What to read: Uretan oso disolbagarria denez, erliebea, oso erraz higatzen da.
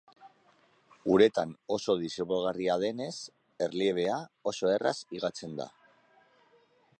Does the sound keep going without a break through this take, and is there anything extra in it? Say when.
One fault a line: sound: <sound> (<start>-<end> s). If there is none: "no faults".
no faults